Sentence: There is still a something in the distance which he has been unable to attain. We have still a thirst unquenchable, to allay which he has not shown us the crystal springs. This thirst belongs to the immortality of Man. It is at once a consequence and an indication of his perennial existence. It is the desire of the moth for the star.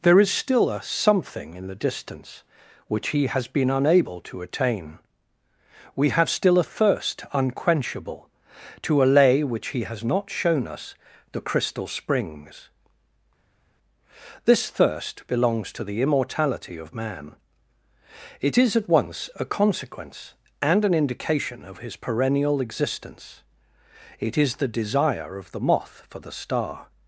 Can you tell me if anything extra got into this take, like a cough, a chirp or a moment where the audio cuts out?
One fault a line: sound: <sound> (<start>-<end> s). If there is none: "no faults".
no faults